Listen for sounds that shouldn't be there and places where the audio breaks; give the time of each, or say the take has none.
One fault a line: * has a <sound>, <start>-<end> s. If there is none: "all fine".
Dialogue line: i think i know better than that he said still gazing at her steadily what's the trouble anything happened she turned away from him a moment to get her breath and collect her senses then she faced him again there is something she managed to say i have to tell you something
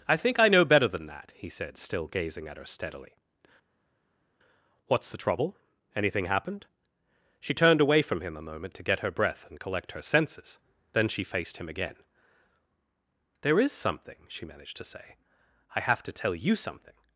all fine